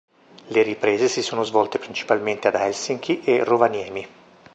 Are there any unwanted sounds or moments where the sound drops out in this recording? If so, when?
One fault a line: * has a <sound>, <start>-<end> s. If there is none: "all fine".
all fine